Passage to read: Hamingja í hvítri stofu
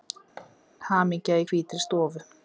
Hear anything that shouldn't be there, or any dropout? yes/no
yes